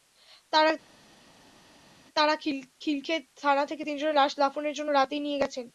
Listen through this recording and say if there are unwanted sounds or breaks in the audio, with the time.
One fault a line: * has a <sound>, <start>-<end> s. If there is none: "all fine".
all fine